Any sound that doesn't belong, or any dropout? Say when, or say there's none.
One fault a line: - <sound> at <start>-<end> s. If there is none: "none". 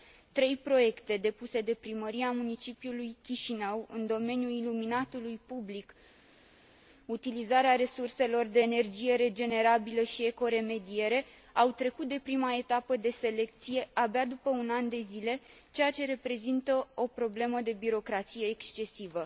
none